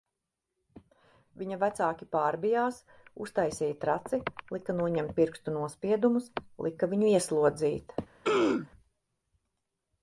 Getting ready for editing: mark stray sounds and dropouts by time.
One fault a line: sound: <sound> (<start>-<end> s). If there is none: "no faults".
sound: throat clearing (8.2-8.7 s)